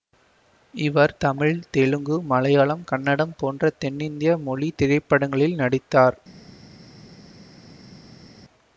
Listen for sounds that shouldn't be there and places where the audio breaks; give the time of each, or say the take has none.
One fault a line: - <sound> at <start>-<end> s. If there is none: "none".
none